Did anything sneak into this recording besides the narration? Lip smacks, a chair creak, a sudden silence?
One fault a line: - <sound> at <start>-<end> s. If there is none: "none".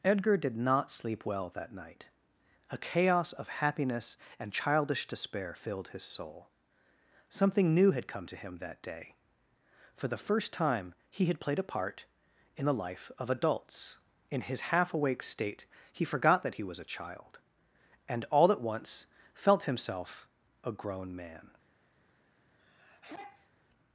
- sneeze at 22.6-23.5 s